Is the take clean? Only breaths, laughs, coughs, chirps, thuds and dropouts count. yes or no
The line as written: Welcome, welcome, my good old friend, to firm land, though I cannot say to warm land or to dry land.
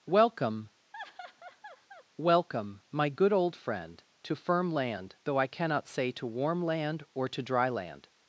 no